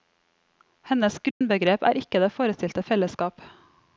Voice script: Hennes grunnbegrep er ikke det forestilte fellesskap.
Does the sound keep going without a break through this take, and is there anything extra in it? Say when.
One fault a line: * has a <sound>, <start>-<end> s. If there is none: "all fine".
* has a dropout, 1.3-1.4 s